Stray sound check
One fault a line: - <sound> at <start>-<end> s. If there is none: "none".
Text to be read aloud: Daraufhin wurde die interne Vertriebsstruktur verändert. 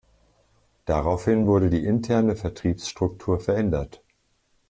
none